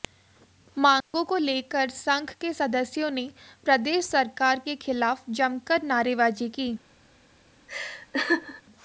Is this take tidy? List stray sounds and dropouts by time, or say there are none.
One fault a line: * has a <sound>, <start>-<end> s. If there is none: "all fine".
* has a dropout, 1.0-1.1 s
* has a laugh, 7.7-8.6 s